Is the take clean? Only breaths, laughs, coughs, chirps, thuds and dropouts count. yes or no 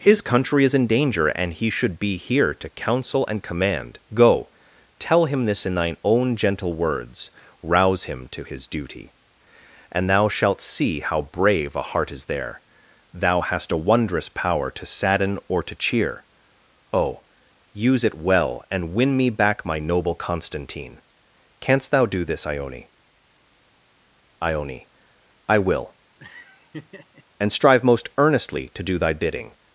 no